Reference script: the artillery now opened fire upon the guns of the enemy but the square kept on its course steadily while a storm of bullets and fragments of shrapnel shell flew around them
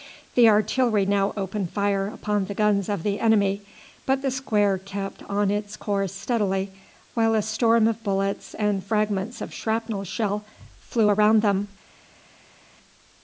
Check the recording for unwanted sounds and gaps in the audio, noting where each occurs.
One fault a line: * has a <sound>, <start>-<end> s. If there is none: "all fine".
all fine